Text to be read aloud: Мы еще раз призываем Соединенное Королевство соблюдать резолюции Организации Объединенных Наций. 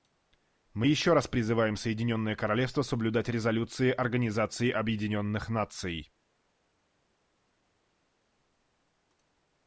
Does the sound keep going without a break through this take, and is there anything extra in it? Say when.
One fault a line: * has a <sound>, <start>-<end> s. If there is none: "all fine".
all fine